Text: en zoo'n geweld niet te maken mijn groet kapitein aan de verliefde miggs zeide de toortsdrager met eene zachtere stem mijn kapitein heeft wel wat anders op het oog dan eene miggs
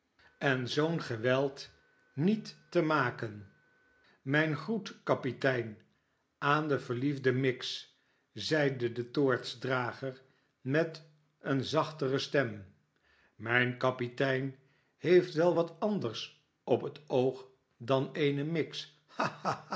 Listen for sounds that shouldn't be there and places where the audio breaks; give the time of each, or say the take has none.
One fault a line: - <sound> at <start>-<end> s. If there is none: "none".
none